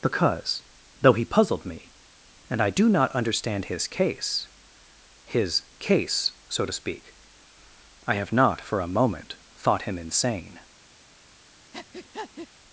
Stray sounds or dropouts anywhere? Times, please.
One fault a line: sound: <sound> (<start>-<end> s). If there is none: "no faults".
sound: breath (11.7-12.5 s)